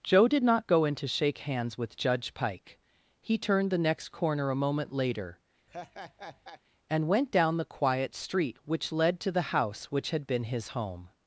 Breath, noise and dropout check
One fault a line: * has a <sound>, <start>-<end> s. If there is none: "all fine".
* has a laugh, 5.7-6.6 s